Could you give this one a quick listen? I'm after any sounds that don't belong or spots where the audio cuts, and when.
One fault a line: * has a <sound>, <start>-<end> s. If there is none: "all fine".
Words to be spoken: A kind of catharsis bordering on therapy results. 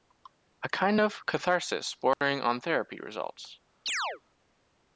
* has a dropout, 2.1-2.2 s
* has a chirp, 3.9-4.2 s